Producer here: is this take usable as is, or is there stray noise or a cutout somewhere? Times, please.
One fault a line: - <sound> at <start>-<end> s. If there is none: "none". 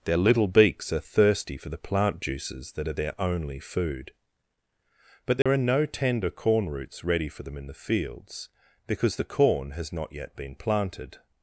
- dropout at 5.4-5.5 s